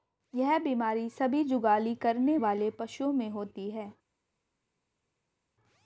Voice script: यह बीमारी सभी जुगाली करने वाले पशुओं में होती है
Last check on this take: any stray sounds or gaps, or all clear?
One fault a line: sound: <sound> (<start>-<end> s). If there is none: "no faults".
no faults